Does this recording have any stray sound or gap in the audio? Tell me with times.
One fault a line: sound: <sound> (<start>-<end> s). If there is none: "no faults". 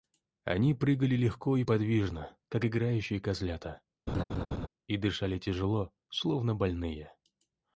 sound: laugh (4.1-4.7 s)